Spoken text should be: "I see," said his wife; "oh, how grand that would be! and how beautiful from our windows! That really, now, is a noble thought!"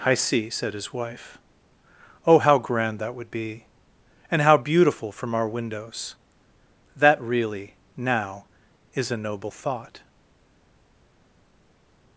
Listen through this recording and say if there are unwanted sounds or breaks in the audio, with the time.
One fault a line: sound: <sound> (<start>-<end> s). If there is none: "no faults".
no faults